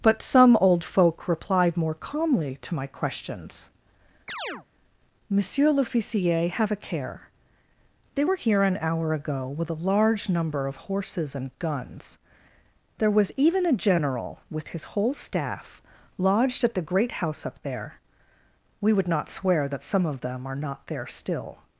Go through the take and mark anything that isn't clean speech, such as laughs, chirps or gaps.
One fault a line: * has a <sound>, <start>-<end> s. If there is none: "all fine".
* has a chirp, 4.3-4.7 s